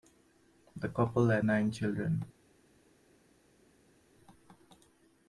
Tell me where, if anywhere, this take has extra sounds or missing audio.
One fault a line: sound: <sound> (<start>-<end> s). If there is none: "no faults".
no faults